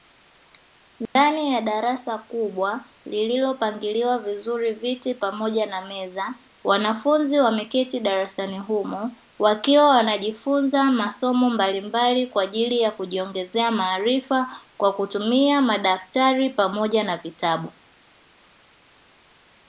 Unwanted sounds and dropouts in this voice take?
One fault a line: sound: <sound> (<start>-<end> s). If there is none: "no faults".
sound: dropout (1.1-1.2 s)